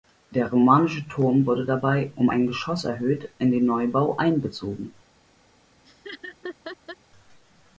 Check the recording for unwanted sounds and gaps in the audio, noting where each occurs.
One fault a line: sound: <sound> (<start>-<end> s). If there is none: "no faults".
sound: laugh (5.8-7.0 s)